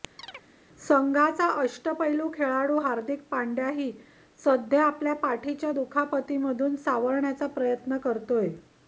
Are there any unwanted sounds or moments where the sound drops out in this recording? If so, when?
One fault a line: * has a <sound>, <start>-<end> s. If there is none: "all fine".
* has a chirp, 0.2-0.5 s